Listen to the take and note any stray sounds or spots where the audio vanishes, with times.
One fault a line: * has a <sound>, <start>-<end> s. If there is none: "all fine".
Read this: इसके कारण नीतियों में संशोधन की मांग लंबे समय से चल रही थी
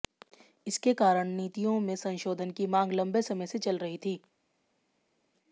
all fine